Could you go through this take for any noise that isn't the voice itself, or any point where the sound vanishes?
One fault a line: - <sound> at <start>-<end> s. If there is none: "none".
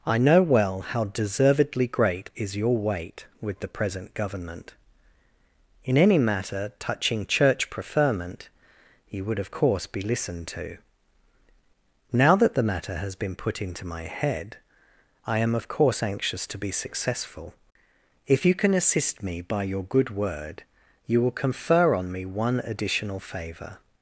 none